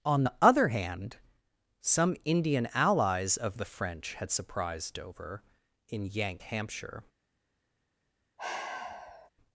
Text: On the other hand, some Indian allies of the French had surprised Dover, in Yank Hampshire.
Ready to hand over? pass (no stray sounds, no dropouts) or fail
fail